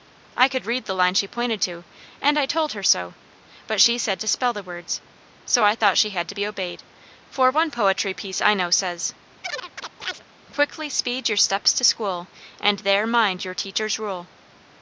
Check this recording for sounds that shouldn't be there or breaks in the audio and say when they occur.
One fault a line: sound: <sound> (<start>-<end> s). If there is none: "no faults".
sound: chirp (9.4-10.2 s)